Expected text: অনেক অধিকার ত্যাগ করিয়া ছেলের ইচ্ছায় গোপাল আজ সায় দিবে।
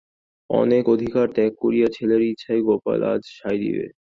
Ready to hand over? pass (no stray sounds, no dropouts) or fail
pass